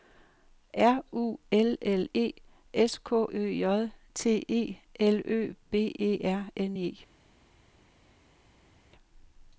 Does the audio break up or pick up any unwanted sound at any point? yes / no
no